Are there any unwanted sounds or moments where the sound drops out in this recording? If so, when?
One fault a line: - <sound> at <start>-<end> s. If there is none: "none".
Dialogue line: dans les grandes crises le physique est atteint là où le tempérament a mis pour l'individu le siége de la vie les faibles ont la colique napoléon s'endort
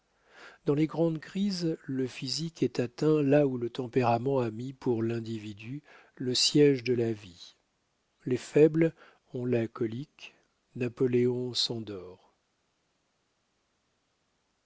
none